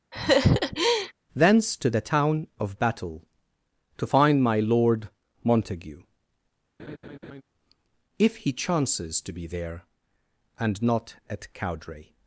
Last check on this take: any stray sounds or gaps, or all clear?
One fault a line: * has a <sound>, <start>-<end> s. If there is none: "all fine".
* has a laugh, 0.1-1.1 s
* has a laugh, 6.8-7.4 s